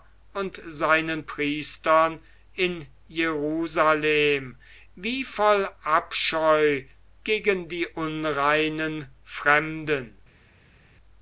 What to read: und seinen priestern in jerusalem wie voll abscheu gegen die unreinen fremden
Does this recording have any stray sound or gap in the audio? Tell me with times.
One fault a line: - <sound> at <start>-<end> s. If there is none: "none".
none